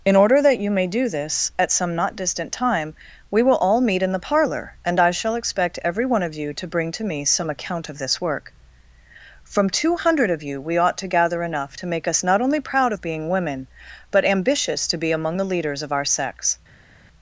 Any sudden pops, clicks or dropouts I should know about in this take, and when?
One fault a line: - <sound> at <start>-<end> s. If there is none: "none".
none